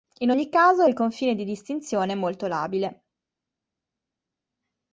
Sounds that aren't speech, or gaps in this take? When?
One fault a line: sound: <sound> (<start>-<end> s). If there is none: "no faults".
no faults